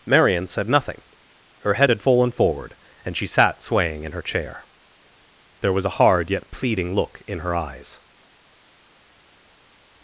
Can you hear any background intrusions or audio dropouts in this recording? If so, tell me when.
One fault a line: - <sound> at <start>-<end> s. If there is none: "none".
none